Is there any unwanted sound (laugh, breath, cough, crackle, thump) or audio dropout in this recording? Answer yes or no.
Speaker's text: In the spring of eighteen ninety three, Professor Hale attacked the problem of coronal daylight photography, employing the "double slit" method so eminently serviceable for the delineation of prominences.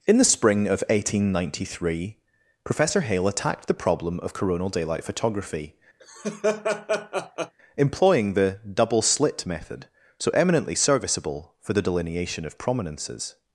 yes